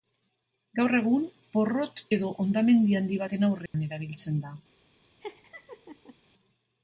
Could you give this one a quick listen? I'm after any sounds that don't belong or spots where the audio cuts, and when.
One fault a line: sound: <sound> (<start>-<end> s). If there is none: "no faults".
sound: dropout (3.7-3.7 s)
sound: laugh (5.2-6.2 s)